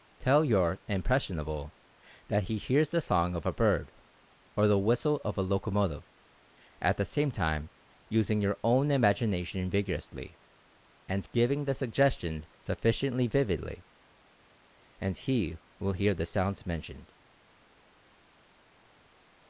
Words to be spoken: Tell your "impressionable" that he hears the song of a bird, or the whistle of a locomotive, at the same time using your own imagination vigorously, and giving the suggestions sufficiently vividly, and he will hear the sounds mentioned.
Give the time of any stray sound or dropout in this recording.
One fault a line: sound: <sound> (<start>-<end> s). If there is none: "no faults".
no faults